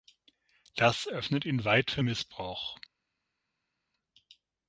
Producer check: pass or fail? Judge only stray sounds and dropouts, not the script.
pass